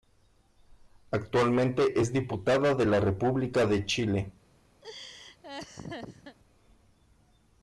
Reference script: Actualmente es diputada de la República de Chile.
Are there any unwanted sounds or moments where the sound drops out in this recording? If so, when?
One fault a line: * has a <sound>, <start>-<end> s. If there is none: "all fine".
* has a laugh, 4.8-6.4 s